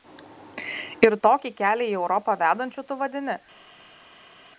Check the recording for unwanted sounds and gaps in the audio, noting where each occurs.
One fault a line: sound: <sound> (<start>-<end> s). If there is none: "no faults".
no faults